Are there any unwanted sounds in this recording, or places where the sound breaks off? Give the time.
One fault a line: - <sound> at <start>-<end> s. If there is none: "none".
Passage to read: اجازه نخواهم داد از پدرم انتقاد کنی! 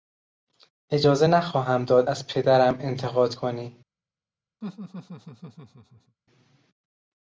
- laugh at 4.6-6.2 s